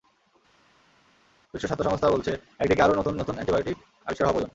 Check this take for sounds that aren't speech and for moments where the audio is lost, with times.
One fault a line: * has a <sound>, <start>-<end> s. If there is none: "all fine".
all fine